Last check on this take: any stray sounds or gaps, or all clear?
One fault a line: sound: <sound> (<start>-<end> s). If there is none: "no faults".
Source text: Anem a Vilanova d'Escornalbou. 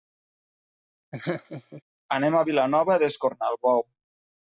sound: laugh (1.1-1.8 s)